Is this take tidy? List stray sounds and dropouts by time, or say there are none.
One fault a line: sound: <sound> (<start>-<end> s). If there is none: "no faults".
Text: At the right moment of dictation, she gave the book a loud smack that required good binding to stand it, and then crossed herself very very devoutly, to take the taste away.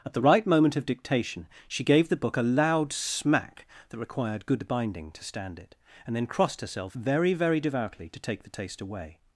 no faults